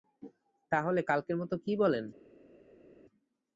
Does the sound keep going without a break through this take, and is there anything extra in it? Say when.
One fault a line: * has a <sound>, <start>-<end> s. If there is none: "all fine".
all fine